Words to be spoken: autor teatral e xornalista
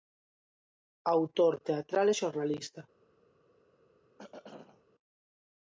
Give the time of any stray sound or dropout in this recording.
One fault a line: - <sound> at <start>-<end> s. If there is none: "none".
- throat clearing at 4.2-4.8 s